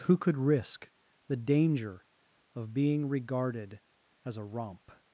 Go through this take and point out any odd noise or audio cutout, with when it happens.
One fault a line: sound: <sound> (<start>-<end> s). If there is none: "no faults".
no faults